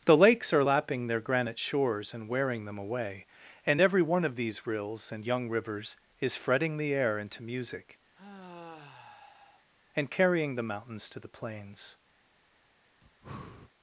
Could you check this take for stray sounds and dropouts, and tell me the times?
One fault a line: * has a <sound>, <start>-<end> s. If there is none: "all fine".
* has a sigh, 8.1-9.7 s
* has a breath, 13.0-13.7 s